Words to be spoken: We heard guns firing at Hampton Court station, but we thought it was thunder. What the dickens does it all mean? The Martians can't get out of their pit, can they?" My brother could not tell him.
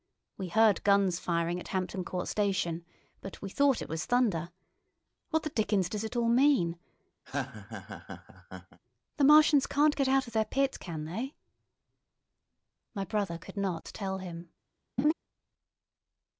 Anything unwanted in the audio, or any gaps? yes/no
yes